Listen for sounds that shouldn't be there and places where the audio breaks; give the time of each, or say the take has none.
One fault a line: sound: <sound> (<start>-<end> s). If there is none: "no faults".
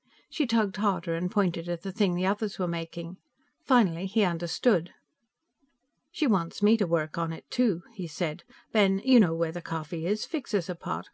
no faults